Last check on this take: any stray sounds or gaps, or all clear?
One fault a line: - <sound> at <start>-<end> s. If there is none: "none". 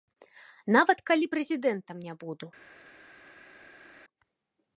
none